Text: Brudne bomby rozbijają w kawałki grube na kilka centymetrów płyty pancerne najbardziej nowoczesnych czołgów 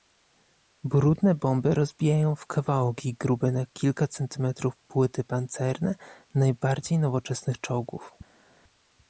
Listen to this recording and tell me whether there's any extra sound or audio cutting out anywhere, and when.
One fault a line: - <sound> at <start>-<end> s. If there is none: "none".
none